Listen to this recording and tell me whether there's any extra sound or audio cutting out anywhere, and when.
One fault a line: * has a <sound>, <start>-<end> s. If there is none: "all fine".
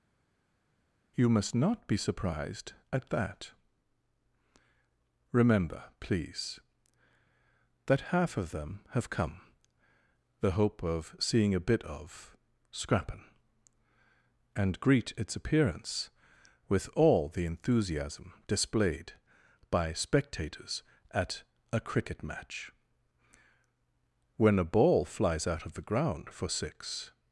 all fine